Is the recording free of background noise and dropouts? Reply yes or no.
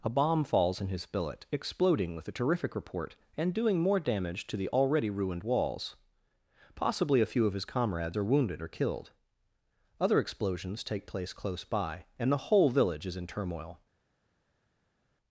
yes